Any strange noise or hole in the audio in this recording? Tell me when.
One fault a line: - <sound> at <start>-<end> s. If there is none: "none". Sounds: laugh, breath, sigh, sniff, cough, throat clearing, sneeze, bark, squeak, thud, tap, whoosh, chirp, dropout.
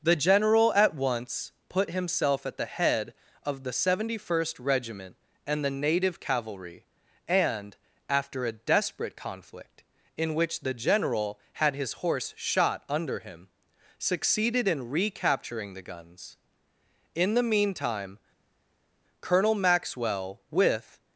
none